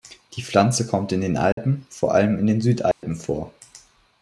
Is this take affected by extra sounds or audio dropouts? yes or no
yes